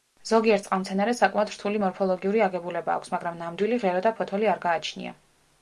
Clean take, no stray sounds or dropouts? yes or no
yes